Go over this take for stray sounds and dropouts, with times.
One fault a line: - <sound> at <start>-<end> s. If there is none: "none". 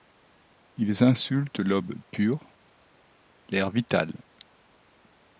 none